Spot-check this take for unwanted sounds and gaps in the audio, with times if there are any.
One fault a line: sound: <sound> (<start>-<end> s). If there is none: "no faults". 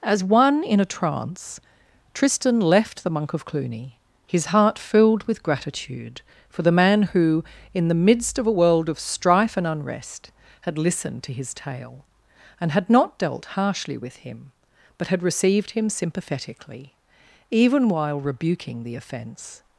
no faults